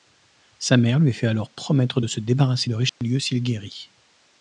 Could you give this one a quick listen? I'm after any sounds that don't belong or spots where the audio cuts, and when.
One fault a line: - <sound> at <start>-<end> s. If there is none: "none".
- dropout at 2.9-3.0 s